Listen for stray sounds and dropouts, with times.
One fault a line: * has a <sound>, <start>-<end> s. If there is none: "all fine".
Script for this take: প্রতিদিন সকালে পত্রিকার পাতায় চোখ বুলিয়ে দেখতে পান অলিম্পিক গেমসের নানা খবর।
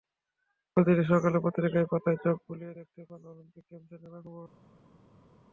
all fine